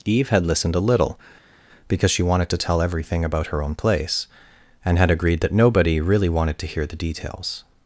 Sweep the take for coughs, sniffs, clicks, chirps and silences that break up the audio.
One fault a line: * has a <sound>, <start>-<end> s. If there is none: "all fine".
all fine